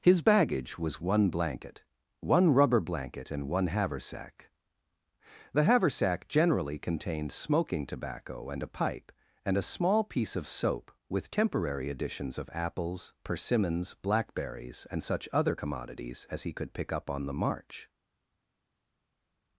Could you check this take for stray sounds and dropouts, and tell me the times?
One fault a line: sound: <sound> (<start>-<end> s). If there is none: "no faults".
no faults